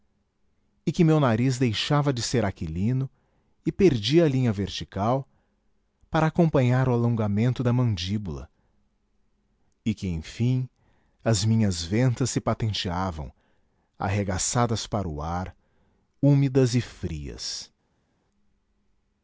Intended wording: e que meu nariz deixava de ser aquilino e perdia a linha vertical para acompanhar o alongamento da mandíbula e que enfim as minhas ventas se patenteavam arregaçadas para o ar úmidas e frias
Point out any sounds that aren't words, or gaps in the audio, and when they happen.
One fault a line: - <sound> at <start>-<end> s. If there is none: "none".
none